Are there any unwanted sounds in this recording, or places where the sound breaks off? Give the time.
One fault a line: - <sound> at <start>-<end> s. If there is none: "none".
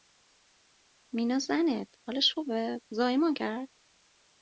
none